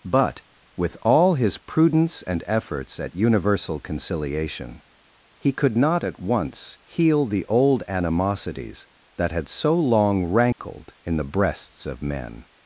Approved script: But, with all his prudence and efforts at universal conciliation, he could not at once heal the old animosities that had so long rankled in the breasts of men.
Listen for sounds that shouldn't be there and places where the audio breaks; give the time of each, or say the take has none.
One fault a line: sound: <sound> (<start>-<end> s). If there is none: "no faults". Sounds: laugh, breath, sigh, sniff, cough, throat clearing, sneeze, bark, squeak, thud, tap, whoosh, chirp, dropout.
sound: dropout (10.5-10.6 s)